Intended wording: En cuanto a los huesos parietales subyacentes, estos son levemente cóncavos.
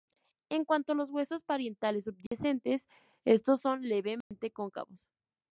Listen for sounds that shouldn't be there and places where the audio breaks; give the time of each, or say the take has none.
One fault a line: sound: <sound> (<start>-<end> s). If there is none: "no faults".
sound: dropout (2.3-2.3 s)
sound: dropout (4.2-4.3 s)